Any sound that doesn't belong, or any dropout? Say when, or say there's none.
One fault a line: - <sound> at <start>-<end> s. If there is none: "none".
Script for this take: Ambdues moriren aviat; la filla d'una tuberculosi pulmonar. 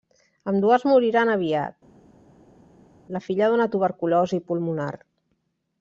none